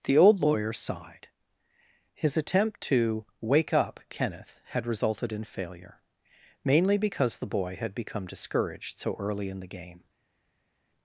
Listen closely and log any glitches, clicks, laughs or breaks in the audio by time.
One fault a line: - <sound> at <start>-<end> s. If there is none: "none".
none